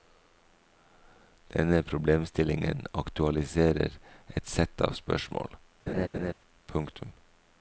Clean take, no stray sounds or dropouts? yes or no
no